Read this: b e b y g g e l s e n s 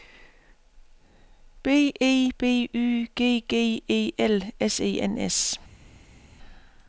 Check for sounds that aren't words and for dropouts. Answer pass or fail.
pass